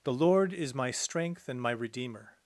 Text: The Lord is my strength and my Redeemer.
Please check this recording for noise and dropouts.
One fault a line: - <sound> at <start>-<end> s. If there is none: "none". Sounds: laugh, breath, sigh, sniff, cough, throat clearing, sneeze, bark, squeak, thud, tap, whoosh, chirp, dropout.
none